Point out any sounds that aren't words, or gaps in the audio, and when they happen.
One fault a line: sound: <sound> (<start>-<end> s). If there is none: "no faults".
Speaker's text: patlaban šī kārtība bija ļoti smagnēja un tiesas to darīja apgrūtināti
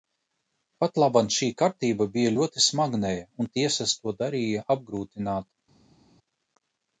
no faults